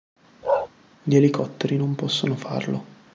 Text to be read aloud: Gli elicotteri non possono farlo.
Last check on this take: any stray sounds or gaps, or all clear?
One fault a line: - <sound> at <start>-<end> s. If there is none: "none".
- bark at 0.4-0.7 s